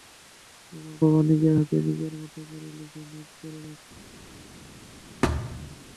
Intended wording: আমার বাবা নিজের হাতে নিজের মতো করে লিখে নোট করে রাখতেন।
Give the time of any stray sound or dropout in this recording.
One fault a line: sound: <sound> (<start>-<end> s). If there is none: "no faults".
sound: thud (5.2-5.8 s)